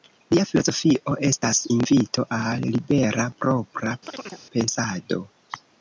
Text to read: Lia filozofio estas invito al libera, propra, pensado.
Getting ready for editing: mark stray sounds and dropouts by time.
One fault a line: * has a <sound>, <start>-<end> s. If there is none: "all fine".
* has a chirp, 4.1-4.4 s